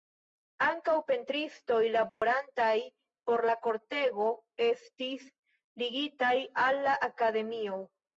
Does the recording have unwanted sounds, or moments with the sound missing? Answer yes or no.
yes